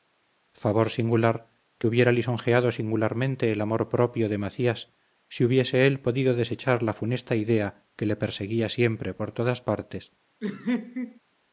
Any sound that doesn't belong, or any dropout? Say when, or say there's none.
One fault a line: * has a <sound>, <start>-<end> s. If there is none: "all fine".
* has a laugh, 10.4-11.2 s